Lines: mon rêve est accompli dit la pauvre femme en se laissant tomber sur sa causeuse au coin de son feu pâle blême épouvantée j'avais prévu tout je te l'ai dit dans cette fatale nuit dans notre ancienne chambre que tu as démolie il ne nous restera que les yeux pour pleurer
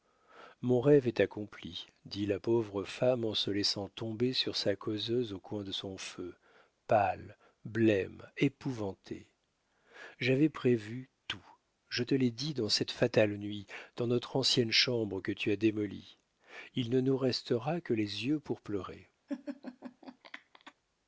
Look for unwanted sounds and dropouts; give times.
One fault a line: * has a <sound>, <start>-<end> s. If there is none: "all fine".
* has a laugh, 19.3-20.7 s